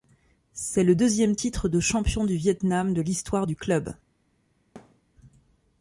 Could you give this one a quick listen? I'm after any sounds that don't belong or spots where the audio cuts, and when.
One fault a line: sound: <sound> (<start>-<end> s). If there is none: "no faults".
sound: thud (4.8-5.0 s)